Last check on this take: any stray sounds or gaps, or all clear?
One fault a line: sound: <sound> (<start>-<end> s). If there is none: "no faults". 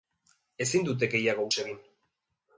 no faults